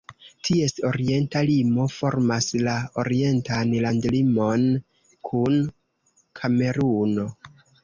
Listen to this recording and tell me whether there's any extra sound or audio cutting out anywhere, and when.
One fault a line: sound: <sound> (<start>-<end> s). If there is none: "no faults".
no faults